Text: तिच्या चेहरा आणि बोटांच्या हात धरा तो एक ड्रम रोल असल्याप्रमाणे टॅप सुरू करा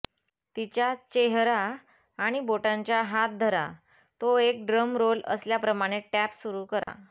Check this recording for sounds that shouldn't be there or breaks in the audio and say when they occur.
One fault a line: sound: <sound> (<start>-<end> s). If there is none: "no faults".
sound: dropout (6.8-6.9 s)